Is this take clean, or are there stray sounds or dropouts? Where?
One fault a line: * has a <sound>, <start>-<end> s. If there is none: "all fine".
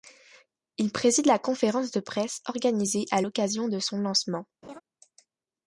* has a laugh, 4.6-4.8 s